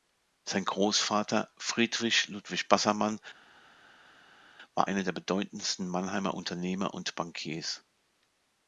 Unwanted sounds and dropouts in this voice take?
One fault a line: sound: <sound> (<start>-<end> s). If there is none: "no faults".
no faults